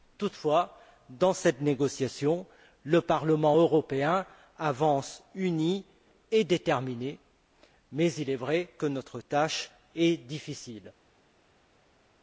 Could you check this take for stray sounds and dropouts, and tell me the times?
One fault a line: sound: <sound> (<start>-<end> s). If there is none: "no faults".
no faults